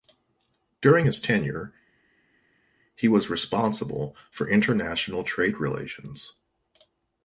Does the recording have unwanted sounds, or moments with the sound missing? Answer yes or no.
no